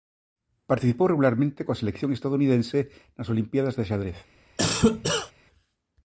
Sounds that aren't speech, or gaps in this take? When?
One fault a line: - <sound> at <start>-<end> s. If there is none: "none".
- cough at 4.6-5.3 s